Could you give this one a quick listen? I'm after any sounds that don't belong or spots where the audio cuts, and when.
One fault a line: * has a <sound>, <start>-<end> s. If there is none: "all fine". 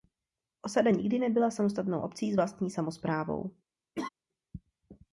* has a laugh, 3.9-4.1 s